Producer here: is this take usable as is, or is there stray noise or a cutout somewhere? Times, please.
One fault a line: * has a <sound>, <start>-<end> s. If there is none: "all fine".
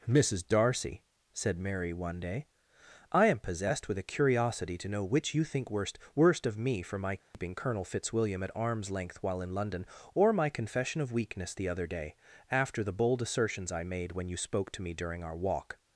* has a dropout, 7.2-7.3 s